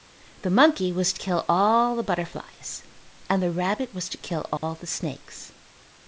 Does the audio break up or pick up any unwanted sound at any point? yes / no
yes